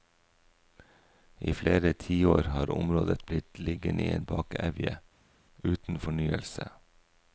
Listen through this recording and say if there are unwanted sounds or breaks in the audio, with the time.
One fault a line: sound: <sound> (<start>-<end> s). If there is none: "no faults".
no faults